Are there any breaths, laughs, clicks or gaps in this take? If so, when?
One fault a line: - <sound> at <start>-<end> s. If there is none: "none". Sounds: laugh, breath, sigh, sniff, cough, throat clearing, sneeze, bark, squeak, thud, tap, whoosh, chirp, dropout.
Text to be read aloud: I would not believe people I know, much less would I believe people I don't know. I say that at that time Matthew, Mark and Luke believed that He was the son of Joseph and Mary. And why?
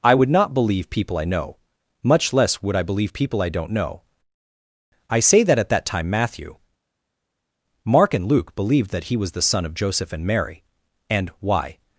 none